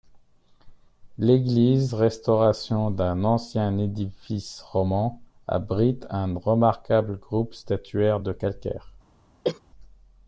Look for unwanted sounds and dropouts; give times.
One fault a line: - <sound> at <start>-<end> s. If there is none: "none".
- cough at 9.4-9.6 s